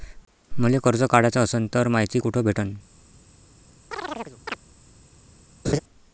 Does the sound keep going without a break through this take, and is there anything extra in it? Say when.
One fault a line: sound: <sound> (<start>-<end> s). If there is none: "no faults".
sound: chirp (3.9-4.6 s)
sound: laugh (5.6-5.8 s)